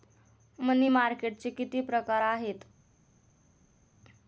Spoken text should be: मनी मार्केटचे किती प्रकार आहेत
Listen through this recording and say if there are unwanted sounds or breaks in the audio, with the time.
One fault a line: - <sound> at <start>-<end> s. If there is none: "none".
none